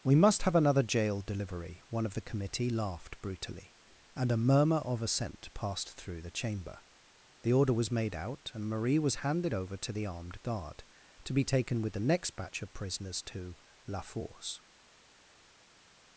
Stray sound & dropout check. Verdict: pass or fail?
pass